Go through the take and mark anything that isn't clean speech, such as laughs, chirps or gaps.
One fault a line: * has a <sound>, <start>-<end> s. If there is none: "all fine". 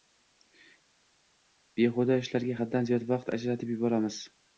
all fine